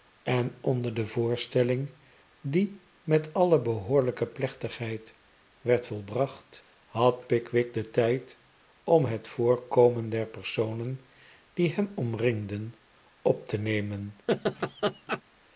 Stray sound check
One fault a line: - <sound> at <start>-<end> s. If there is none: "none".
- laugh at 14.3-15.2 s